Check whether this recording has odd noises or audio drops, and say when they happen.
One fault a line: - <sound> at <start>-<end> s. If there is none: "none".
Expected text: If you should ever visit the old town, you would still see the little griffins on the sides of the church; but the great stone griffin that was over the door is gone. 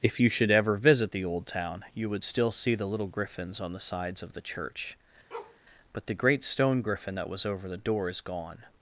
- bark at 5.3-5.6 s